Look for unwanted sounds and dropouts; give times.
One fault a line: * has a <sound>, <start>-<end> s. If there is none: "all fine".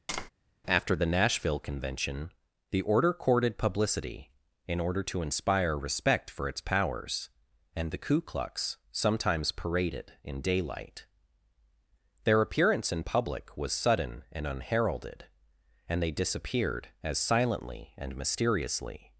* has a tap, 0.1-0.3 s